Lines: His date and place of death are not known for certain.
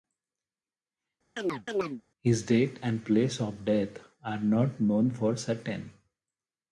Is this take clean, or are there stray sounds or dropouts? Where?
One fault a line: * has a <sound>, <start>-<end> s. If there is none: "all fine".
* has a chirp, 1.4-2.0 s